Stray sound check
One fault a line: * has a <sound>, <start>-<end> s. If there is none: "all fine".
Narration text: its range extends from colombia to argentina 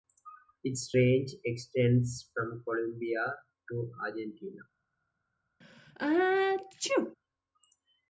* has a sneeze, 5.6-7.2 s